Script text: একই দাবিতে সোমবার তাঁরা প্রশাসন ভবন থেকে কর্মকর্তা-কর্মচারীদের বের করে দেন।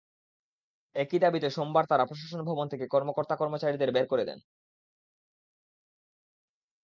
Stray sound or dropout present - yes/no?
no